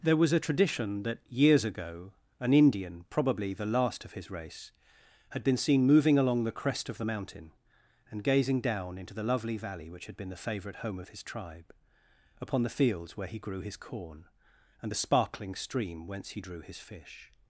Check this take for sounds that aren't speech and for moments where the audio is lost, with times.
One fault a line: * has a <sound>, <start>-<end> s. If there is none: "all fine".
all fine